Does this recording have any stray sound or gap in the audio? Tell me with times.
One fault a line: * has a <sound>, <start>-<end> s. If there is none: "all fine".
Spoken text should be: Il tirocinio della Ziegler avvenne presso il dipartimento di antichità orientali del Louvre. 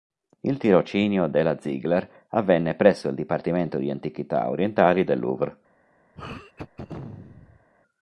* has a throat clearing, 6.1-7.7 s